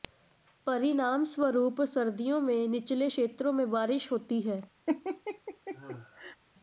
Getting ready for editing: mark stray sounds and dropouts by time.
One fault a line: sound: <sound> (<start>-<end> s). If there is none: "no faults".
sound: laugh (4.9-6.4 s)